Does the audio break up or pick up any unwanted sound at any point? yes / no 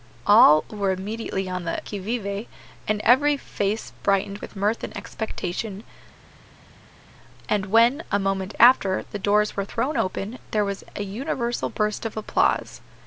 no